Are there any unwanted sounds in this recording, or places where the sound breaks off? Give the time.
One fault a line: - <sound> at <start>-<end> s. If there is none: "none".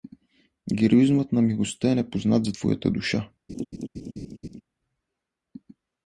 - laugh at 3.5-4.6 s